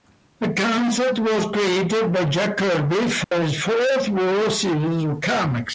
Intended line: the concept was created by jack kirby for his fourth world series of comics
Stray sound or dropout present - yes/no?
yes